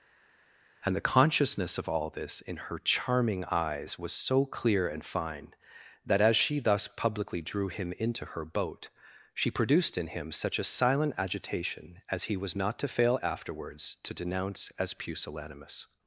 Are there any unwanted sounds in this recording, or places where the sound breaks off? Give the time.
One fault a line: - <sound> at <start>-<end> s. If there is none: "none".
none